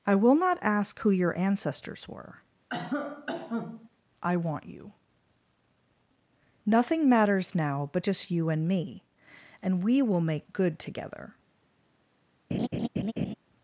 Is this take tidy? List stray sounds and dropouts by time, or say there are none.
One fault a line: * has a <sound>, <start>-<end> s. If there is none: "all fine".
* has a cough, 2.7-3.9 s
* has a laugh, 12.5-13.3 s